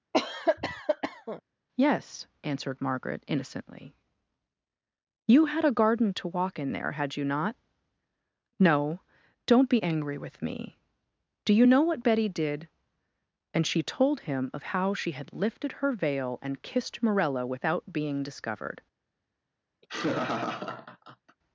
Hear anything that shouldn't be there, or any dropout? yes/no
yes